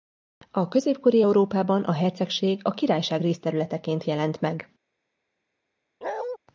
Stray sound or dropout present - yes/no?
yes